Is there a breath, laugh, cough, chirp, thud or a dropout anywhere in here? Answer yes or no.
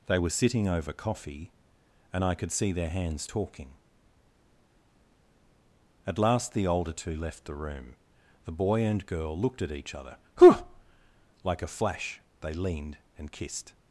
no